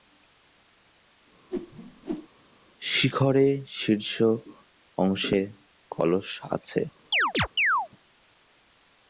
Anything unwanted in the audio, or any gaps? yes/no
yes